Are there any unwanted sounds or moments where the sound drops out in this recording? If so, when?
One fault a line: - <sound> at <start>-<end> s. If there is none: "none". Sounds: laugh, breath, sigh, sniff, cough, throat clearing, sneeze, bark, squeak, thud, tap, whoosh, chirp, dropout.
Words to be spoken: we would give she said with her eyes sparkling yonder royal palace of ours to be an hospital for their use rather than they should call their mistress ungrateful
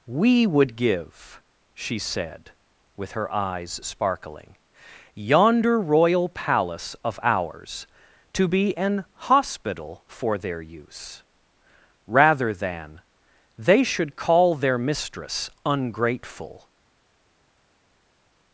none